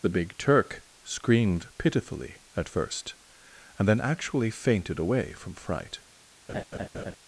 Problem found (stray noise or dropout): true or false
true